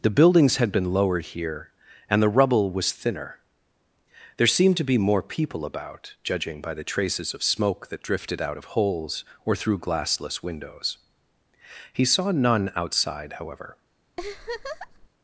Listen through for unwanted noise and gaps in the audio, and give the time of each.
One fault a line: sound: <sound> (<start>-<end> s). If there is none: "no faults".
sound: laugh (14.2-15.1 s)